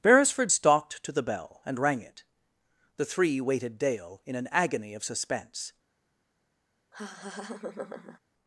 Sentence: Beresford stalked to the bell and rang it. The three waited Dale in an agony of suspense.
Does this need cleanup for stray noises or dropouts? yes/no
yes